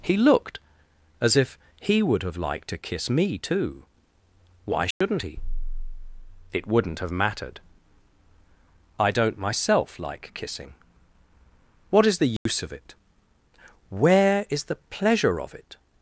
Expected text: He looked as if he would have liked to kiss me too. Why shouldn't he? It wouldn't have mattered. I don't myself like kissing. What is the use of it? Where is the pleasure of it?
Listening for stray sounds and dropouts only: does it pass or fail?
fail